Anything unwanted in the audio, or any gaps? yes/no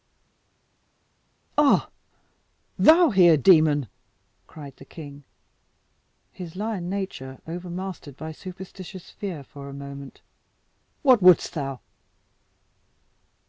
no